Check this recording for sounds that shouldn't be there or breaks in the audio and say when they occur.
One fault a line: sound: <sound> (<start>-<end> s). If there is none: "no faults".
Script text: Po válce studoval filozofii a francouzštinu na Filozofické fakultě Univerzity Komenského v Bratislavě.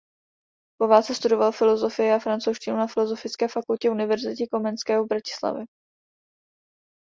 no faults